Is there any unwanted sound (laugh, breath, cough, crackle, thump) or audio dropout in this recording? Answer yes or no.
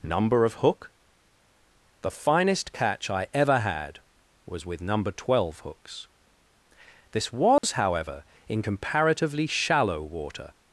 yes